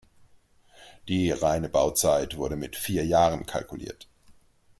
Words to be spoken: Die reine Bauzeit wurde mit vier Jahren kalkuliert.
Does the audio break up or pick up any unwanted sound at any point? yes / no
no